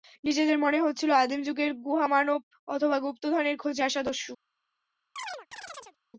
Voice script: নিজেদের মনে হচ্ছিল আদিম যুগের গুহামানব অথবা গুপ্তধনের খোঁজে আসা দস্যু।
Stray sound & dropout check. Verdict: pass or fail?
fail